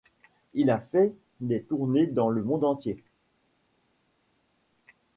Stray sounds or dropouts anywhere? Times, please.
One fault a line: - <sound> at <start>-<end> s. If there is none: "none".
none